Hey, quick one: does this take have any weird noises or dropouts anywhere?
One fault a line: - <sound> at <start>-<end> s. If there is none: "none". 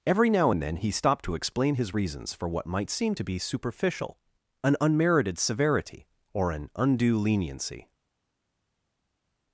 none